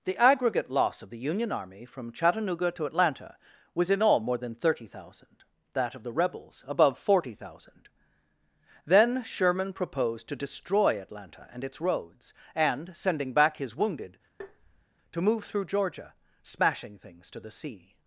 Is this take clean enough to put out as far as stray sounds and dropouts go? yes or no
no